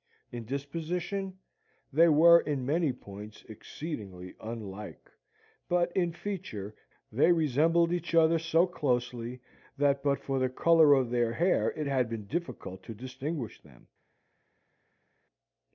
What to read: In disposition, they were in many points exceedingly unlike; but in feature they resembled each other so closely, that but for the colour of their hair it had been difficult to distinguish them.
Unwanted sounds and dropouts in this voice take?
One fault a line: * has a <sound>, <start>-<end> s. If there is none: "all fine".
all fine